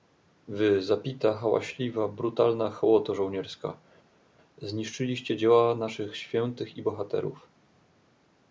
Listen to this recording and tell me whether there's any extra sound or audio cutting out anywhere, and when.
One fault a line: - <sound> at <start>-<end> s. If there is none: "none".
none